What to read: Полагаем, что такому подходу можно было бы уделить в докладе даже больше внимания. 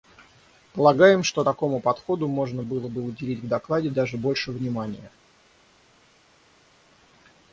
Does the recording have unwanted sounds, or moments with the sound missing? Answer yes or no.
no